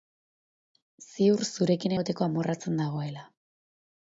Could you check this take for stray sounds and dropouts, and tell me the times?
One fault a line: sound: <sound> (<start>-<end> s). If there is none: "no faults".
no faults